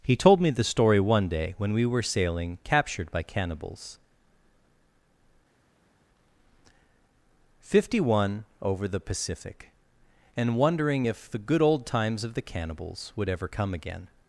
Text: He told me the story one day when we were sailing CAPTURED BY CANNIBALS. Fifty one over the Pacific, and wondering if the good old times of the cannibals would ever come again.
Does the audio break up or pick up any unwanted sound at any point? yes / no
no